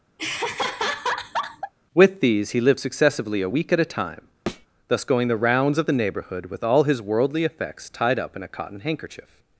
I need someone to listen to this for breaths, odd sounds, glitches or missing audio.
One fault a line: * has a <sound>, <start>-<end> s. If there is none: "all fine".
* has a laugh, 0.2-1.7 s
* has a thud, 4.5-4.7 s